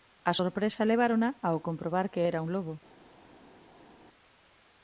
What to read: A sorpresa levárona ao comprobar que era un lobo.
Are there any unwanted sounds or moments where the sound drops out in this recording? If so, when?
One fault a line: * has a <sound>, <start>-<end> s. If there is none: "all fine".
all fine